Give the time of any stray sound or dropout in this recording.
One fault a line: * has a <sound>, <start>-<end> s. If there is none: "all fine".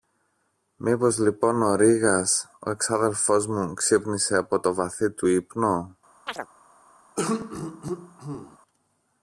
* has a chirp, 6.3-6.5 s
* has a throat clearing, 7.2-8.6 s